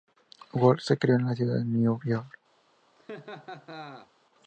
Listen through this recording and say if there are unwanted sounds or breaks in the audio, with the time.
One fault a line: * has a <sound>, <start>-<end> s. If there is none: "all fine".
* has a laugh, 3.0-4.1 s